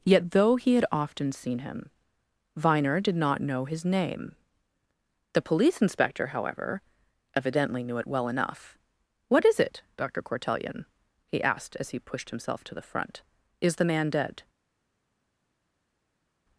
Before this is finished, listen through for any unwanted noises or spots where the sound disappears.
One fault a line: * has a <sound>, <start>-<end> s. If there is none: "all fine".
all fine